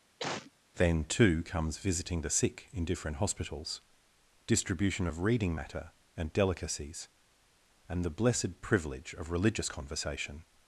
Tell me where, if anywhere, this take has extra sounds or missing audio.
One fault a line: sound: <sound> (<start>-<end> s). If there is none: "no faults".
sound: cough (0.2-0.5 s)